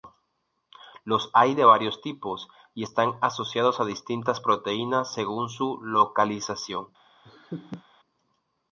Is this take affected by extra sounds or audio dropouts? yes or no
yes